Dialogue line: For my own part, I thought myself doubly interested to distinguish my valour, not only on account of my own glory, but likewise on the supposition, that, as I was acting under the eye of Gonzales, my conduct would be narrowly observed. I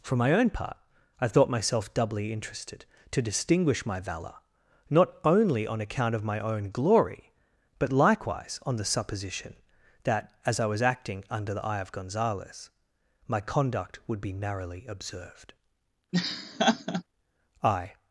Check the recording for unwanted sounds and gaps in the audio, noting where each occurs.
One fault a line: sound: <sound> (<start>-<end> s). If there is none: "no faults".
sound: laugh (16.1-17.0 s)